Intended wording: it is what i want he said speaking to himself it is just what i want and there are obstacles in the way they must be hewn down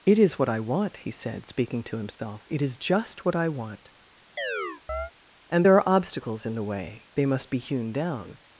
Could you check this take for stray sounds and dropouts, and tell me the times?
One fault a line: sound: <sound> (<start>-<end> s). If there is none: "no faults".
sound: dropout (2.1-2.2 s)
sound: chirp (4.4-5.1 s)